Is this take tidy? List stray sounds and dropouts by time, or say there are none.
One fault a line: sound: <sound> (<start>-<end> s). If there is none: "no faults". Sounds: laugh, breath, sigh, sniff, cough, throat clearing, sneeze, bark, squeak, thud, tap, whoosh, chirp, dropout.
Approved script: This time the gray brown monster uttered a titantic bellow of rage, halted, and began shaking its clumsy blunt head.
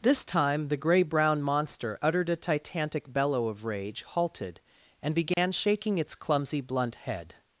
sound: dropout (5.3-5.4 s)